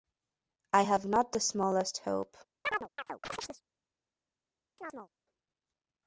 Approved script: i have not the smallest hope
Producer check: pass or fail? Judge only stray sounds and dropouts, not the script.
fail